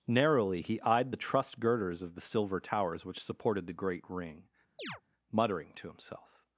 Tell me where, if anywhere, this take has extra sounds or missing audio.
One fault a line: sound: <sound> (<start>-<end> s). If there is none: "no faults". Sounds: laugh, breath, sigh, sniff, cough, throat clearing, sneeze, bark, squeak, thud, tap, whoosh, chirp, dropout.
sound: chirp (4.8-5.0 s)